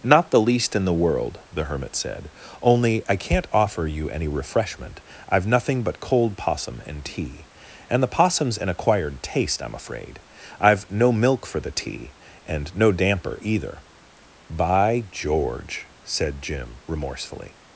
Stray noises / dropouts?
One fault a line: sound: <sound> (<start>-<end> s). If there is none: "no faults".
no faults